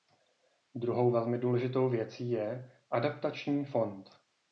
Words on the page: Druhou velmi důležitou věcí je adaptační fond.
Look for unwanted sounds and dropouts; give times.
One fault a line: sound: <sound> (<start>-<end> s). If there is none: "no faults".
no faults